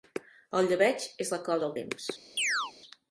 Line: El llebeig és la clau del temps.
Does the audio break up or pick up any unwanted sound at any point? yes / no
yes